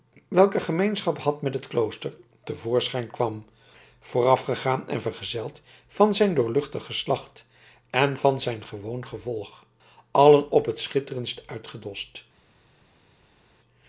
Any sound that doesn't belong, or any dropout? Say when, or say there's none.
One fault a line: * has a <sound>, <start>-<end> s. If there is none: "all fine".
all fine